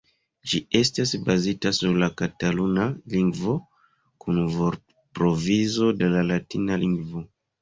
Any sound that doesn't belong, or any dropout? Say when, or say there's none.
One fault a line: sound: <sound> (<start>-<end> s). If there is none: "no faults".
no faults